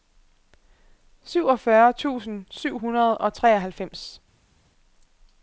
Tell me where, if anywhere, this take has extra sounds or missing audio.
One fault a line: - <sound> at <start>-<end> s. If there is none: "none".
none